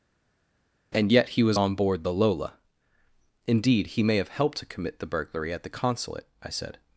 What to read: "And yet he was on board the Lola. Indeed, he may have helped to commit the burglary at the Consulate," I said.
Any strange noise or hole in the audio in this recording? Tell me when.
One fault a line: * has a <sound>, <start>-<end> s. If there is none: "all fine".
all fine